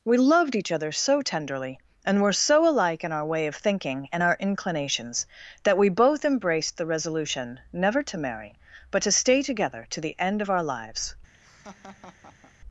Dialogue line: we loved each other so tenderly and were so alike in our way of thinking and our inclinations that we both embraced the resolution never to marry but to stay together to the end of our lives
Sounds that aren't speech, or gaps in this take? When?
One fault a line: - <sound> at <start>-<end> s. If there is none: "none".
- laugh at 11.3-12.5 s